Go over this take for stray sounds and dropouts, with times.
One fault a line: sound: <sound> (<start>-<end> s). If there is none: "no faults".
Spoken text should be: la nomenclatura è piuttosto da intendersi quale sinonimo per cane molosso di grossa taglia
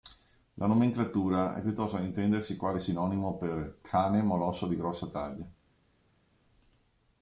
no faults